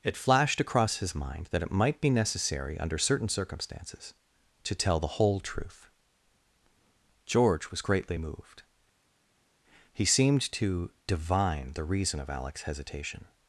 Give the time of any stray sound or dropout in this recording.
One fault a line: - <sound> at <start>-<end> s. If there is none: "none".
none